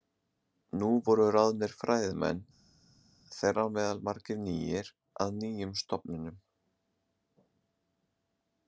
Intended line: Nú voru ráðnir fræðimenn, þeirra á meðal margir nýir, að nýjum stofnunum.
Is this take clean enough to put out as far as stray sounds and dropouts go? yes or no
yes